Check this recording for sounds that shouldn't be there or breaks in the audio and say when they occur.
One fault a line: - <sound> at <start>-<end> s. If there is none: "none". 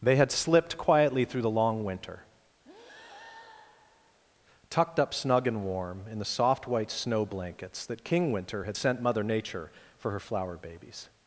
- breath at 2.6-4.2 s